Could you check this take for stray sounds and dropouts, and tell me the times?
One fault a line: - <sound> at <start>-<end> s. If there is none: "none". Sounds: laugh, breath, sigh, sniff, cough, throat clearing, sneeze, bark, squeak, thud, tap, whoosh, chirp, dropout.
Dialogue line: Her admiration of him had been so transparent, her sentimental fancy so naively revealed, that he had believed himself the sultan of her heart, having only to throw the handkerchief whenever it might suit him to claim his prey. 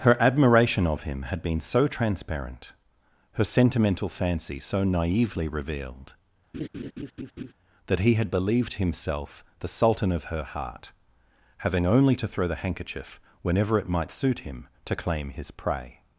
- laugh at 6.5-7.5 s